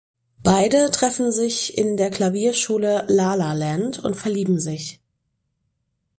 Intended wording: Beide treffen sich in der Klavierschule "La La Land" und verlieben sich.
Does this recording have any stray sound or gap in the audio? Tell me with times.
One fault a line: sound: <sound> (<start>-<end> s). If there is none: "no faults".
no faults